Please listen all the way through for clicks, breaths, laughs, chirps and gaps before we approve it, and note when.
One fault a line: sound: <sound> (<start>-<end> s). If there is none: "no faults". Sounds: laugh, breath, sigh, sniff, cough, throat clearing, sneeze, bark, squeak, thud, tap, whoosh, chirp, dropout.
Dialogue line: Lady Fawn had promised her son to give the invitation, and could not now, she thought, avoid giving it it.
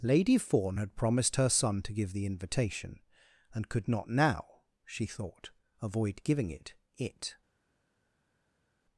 no faults